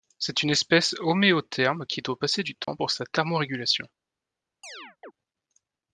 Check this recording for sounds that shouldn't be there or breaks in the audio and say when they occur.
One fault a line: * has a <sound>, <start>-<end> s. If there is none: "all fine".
* has a dropout, 2.6-2.7 s
* has a chirp, 4.6-5.1 s